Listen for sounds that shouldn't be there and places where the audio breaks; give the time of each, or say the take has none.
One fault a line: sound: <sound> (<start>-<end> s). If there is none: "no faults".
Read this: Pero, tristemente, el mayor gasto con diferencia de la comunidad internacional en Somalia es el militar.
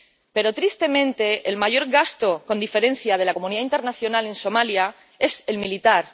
no faults